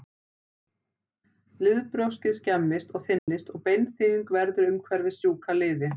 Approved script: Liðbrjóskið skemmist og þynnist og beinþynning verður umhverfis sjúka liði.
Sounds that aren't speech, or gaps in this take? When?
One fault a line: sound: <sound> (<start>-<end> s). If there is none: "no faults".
sound: dropout (3.2-3.3 s)